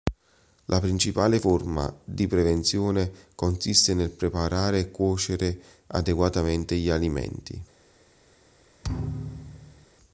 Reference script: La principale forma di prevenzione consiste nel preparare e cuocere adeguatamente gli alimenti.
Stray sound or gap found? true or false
true